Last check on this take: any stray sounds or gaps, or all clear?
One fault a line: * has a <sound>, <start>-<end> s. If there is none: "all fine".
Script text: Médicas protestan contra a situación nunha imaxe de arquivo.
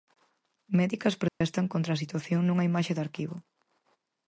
* has a dropout, 1.3-1.4 s